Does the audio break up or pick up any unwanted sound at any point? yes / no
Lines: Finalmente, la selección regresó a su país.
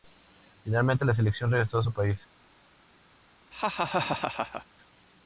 yes